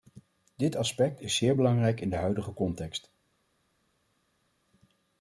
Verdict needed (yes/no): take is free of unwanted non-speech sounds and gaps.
yes